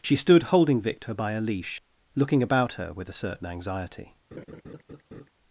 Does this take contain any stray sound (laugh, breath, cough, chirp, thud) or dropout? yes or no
yes